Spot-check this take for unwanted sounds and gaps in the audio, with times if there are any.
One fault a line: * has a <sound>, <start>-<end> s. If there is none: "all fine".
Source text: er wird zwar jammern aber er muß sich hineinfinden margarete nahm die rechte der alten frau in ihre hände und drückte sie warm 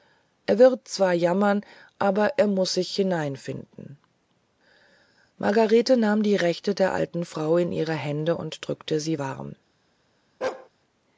* has a bark, 10.4-10.7 s